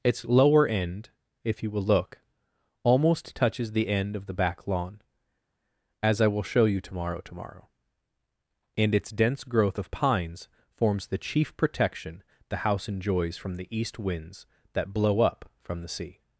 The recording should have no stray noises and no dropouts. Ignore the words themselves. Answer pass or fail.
pass